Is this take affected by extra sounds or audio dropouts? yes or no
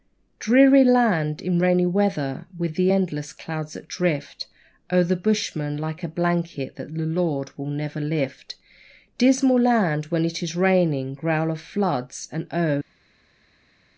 no